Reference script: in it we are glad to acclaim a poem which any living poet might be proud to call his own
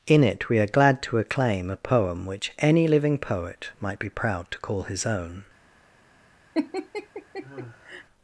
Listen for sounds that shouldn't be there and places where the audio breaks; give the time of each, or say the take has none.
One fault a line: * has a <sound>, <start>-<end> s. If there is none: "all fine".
* has a laugh, 6.5-8.0 s